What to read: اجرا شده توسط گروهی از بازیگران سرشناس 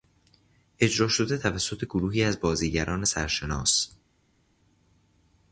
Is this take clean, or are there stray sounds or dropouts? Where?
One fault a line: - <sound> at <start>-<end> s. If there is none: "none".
none